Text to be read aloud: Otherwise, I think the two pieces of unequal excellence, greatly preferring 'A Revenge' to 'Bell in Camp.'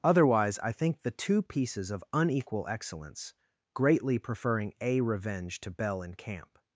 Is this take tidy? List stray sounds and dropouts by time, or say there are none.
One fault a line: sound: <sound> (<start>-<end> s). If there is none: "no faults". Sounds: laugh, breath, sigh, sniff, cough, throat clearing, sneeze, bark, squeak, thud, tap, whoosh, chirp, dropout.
no faults